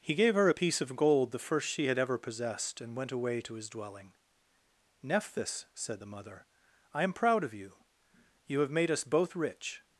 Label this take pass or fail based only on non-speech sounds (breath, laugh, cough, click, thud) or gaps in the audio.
pass